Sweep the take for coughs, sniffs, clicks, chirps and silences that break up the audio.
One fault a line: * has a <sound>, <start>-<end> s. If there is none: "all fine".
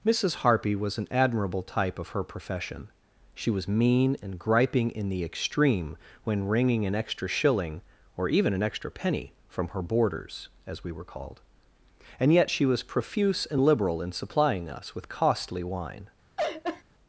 * has a laugh, 16.4-16.8 s